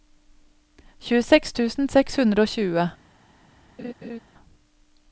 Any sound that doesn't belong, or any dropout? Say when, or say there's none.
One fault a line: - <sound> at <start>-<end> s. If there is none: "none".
- laugh at 3.8-4.2 s